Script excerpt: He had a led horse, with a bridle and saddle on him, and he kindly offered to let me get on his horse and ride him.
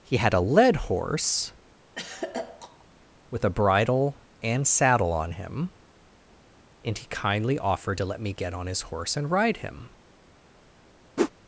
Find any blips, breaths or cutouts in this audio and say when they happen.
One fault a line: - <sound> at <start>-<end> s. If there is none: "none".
- throat clearing at 1.9-2.8 s
- whoosh at 11.2-11.3 s